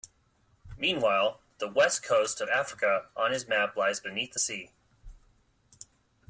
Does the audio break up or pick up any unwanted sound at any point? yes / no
no